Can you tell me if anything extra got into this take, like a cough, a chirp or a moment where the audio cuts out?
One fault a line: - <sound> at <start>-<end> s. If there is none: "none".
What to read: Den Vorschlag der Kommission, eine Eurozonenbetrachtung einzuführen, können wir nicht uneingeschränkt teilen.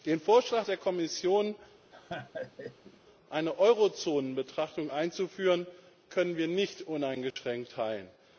- laugh at 1.9-3.0 s
- dropout at 7.3-7.4 s